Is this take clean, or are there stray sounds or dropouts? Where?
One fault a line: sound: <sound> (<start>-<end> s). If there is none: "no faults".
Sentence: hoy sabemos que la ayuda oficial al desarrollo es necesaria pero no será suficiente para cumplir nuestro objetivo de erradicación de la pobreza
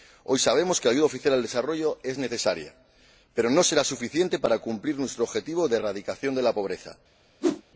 sound: whoosh (7.4-7.6 s)